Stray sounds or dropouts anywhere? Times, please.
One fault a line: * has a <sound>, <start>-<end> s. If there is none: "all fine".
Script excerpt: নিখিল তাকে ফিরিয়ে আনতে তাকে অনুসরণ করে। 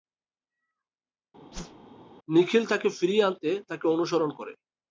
* has a whoosh, 1.5-1.9 s